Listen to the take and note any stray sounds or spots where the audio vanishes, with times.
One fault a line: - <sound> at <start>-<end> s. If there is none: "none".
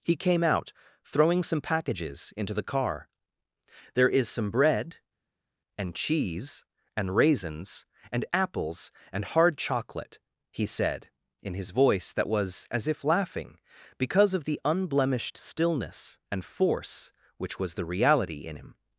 none